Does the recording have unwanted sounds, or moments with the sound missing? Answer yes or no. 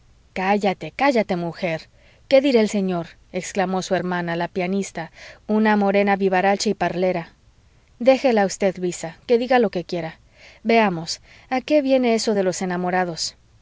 no